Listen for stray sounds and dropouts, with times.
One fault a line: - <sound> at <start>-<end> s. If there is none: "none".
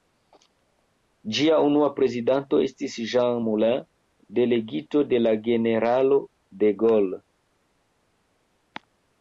none